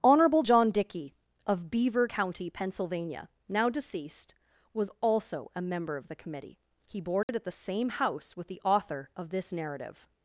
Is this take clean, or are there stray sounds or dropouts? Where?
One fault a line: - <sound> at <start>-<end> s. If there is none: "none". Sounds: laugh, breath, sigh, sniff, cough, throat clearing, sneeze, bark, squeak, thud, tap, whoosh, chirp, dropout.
- dropout at 7.2-7.3 s